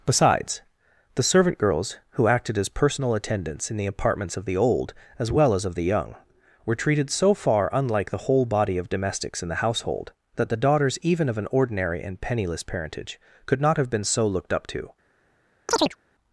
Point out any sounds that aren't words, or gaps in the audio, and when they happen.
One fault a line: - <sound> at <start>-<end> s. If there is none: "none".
- chirp at 15.7-16.0 s